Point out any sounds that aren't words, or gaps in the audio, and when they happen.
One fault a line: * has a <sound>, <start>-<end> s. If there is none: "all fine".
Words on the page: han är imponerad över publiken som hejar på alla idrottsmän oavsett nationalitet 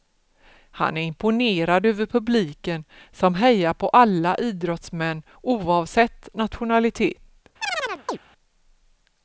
* has a chirp, 7.6-8.2 s